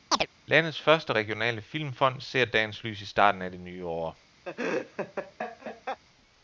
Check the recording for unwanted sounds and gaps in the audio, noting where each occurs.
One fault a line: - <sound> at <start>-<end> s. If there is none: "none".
- chirp at 0.1-0.3 s
- laugh at 4.5-6.0 s